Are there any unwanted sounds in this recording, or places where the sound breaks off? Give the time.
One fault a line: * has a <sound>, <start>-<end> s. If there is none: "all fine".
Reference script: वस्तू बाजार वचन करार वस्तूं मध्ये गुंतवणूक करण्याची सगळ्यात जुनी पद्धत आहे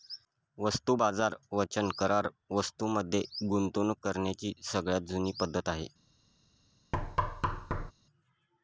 * has a thud, 6.9-7.9 s